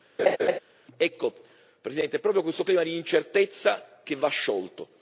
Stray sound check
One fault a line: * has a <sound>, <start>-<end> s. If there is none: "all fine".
* has a laugh, 0.2-0.6 s